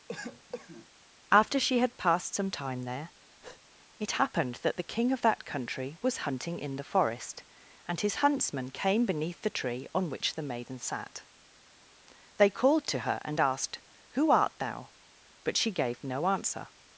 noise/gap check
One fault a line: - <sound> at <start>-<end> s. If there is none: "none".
- cough at 0.1-0.9 s
- breath at 3.4-3.6 s